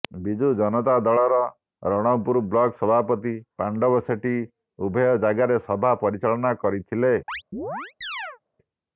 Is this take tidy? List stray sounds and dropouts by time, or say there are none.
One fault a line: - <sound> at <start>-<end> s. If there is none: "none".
- chirp at 7.3-8.4 s